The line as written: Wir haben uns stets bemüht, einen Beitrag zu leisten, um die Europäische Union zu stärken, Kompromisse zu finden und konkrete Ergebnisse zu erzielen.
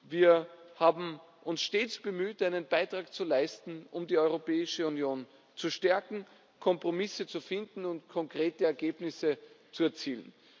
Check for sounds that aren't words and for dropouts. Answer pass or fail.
pass